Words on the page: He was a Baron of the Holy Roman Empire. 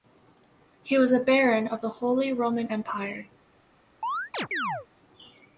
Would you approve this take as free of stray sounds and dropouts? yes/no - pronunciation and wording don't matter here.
no